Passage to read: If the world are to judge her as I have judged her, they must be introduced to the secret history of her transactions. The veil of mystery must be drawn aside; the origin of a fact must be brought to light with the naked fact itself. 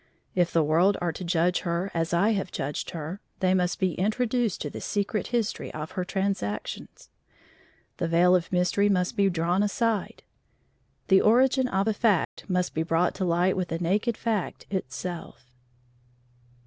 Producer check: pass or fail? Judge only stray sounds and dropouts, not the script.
fail